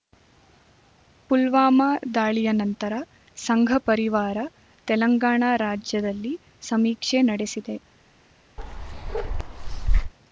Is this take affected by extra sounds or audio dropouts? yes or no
yes